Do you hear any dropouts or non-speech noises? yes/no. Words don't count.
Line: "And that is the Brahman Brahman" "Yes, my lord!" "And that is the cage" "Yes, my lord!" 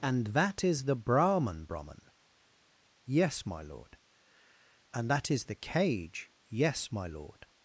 no